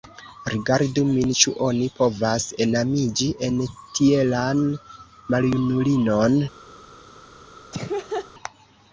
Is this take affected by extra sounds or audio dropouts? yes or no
yes